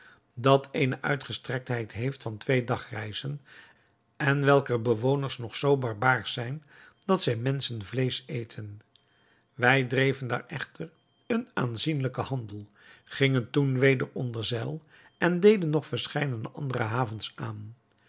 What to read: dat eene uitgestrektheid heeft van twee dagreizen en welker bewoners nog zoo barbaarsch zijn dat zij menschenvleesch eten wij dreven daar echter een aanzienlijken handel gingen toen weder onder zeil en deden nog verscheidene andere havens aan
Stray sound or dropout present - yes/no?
no